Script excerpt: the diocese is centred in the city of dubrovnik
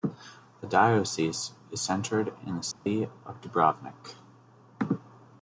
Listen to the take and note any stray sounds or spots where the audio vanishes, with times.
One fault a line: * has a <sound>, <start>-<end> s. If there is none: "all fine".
* has a dropout, 2.7-2.9 s